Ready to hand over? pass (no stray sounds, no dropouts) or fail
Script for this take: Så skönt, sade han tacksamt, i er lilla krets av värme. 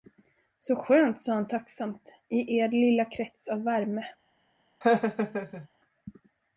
fail